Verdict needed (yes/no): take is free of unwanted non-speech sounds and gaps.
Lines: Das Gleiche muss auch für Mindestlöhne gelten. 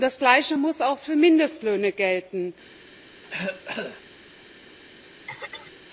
no